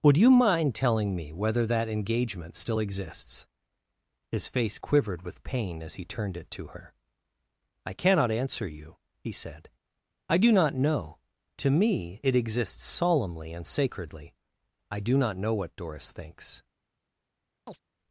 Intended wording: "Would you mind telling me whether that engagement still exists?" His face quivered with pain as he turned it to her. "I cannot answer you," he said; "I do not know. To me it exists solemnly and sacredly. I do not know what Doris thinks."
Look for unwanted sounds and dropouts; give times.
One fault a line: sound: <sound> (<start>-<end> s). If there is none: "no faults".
sound: chirp (17.7-17.8 s)